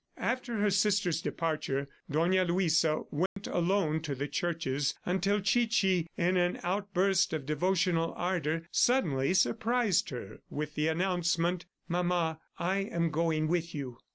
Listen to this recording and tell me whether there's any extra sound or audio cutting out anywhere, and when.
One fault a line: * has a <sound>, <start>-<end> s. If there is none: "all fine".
* has a dropout, 3.3-3.4 s